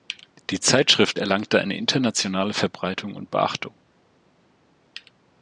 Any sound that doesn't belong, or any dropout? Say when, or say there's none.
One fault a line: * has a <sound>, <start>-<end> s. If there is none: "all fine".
all fine